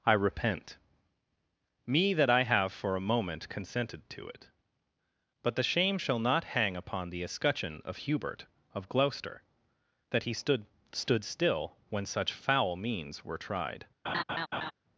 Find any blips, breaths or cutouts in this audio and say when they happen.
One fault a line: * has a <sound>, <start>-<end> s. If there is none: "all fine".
* has a laugh, 14.0-14.7 s